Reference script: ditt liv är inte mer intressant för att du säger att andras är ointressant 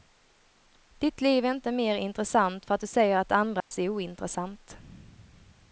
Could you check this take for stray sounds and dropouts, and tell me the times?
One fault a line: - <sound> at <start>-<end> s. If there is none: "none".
- dropout at 3.6-3.7 s